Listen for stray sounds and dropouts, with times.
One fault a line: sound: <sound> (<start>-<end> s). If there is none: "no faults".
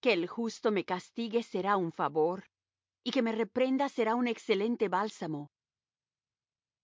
no faults